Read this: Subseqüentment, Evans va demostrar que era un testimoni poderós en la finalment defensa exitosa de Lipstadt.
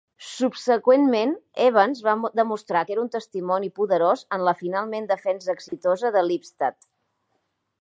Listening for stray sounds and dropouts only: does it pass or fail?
fail